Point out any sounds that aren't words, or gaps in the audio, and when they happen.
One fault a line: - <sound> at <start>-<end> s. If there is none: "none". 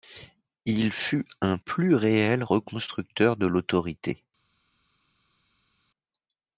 none